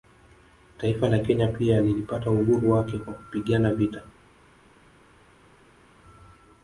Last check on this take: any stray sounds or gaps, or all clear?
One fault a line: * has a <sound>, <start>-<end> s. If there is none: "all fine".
all fine